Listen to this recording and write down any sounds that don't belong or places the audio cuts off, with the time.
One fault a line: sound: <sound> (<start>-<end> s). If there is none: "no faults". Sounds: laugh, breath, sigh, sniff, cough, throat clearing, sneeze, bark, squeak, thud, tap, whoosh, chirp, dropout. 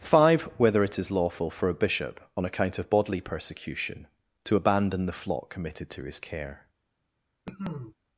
sound: cough (7.5-8.0 s)